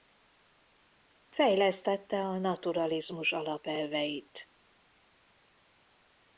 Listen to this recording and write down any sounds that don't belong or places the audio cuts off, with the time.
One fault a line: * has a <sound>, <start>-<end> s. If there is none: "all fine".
all fine